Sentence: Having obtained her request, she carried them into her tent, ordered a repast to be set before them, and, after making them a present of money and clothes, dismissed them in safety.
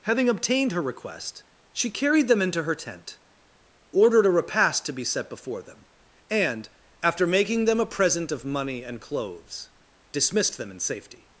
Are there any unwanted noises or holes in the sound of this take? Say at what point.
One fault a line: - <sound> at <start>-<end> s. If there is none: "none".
none